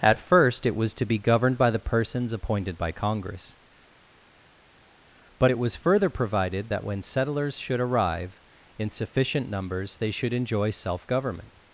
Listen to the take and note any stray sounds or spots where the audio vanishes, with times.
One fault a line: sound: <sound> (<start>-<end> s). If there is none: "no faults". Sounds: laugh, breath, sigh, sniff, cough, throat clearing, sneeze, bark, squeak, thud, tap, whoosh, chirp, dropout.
no faults